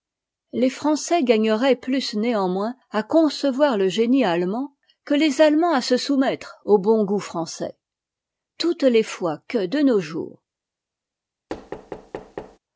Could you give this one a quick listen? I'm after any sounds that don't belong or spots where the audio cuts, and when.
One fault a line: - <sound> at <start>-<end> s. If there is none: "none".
- thud at 11.5-12.6 s